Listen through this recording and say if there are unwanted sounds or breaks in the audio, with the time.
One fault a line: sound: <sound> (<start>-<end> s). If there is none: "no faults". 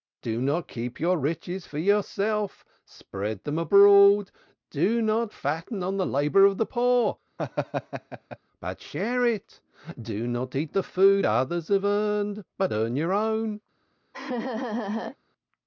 sound: laugh (7.4-8.4 s)
sound: laugh (14.1-15.2 s)